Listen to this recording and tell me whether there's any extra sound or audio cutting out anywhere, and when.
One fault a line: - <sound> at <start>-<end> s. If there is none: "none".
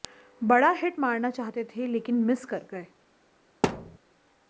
- thud at 3.6-4.0 s